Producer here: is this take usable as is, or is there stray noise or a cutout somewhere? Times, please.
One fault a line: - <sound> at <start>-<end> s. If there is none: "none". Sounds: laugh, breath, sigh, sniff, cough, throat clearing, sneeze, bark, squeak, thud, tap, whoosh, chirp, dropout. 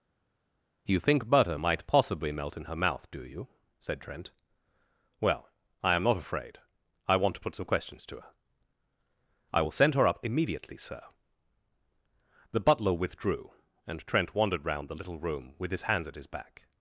none